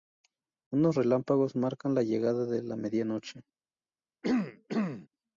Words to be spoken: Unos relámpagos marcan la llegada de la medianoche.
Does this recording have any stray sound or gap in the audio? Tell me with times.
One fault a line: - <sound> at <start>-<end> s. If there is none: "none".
- throat clearing at 4.2-5.1 s